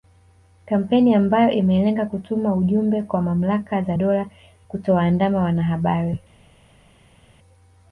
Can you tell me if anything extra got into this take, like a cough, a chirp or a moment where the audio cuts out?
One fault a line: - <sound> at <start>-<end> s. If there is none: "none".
none